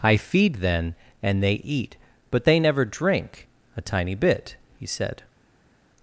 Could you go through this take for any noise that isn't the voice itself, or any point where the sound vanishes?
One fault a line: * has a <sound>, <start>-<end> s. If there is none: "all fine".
all fine